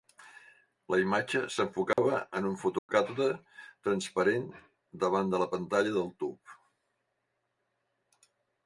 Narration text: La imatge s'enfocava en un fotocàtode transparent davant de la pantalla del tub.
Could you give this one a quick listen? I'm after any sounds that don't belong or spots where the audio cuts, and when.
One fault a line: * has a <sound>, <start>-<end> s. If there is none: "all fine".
* has a dropout, 1.9-2.0 s
* has a dropout, 2.8-2.9 s